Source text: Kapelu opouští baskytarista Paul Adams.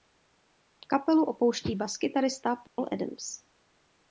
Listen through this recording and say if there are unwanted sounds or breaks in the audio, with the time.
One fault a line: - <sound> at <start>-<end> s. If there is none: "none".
- dropout at 2.7-2.8 s